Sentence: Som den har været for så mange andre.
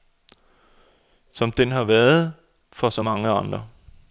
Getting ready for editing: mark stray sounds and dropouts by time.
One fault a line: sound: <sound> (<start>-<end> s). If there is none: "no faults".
no faults